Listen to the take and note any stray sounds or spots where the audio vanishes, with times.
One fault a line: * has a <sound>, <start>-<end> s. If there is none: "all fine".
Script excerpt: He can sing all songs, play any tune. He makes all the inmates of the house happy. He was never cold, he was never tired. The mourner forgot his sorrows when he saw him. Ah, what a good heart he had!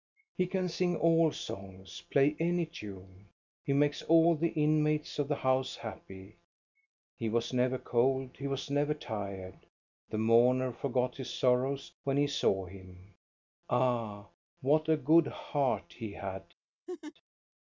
* has a laugh, 16.9-17.1 s